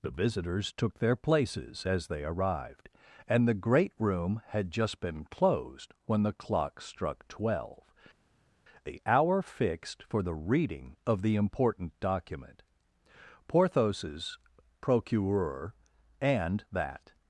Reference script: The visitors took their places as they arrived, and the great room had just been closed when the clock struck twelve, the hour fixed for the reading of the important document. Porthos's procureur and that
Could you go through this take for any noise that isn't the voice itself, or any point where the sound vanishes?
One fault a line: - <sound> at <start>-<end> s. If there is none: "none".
none